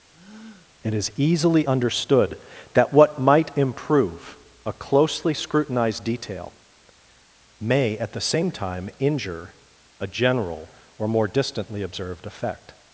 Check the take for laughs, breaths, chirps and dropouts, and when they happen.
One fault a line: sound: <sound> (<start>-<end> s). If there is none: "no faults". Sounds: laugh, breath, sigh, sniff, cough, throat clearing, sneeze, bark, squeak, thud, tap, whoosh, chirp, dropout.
sound: breath (0.1-0.7 s)